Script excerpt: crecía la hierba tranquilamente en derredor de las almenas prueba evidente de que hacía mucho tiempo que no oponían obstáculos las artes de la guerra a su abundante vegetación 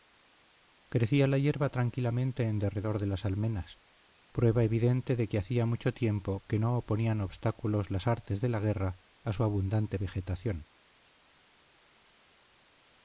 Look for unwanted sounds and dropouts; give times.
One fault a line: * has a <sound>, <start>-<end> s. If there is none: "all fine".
all fine